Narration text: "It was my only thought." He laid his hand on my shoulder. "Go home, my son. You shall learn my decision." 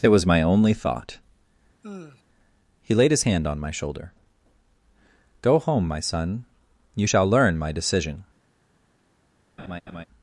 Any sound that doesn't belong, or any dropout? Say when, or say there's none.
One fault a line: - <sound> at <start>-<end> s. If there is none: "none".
- sigh at 1.8-2.2 s
- laugh at 9.6-10.1 s